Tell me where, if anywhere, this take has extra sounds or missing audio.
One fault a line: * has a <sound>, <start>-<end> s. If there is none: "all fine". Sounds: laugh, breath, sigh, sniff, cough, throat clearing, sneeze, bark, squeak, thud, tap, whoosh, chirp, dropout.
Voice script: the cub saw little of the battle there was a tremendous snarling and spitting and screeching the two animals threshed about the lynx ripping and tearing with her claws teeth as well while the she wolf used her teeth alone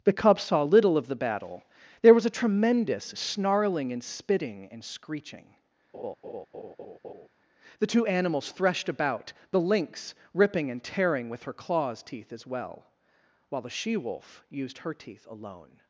* has a laugh, 5.9-7.3 s